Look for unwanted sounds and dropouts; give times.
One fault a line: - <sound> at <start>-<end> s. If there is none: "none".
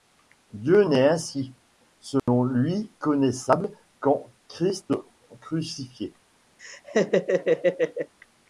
- dropout at 2.2-2.3 s
- laugh at 6.6-8.1 s